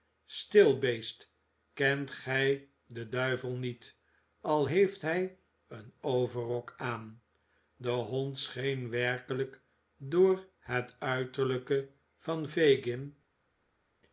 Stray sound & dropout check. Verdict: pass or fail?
pass